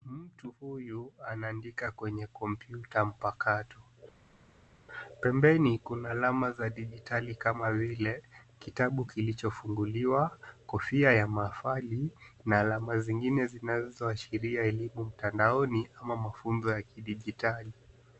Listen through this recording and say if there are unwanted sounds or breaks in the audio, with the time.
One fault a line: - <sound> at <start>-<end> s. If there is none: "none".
none